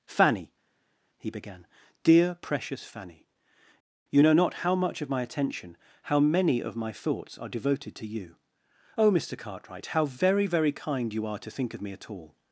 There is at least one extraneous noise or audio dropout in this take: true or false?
false